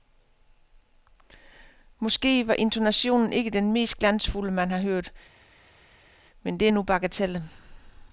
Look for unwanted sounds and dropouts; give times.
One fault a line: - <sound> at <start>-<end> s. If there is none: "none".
none